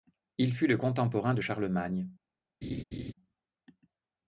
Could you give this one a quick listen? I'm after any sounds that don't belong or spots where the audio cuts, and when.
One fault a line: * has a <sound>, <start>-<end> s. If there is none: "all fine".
* has a laugh, 2.6-3.1 s